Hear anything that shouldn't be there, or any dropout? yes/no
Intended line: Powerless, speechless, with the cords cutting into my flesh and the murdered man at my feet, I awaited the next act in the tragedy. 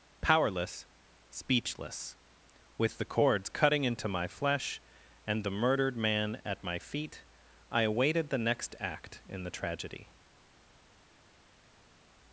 no